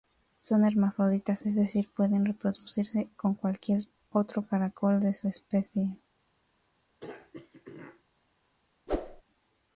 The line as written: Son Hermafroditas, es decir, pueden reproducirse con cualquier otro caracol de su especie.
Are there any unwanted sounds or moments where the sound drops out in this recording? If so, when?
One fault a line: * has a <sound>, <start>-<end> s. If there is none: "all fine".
* has a throat clearing, 7.0-8.0 s
* has a whoosh, 8.9-9.2 s